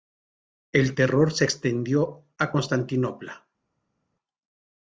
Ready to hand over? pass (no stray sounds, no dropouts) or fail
pass